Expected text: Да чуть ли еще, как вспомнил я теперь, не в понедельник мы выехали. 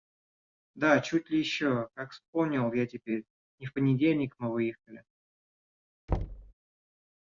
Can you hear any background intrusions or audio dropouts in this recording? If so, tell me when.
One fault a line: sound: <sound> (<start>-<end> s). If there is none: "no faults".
sound: thud (6.1-6.5 s)